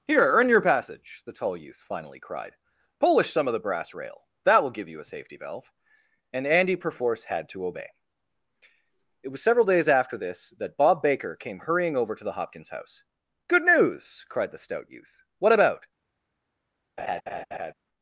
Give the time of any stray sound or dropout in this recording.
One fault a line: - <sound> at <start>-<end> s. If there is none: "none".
- laugh at 17.0-17.7 s